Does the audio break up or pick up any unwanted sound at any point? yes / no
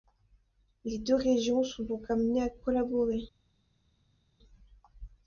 no